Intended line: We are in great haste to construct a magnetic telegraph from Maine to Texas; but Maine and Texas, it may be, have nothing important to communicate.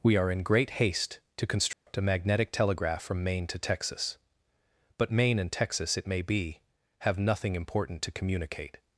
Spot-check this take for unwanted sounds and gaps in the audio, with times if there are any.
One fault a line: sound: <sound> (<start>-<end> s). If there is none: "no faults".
sound: dropout (1.7-1.9 s)